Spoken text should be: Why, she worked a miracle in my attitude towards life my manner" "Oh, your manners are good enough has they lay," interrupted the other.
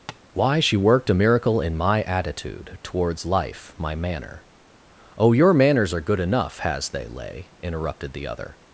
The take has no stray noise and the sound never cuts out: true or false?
false